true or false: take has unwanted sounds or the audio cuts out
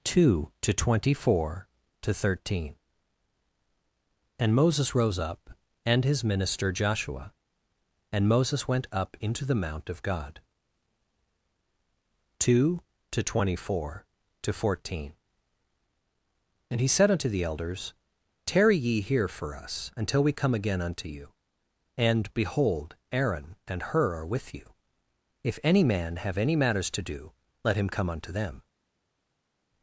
false